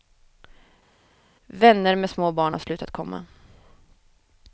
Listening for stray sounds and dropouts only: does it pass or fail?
pass